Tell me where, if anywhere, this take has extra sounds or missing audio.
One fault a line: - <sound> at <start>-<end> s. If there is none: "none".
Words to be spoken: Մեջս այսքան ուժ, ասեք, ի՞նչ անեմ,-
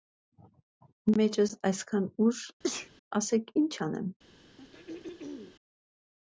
- sneeze at 2.6-2.9 s
- throat clearing at 4.6-5.6 s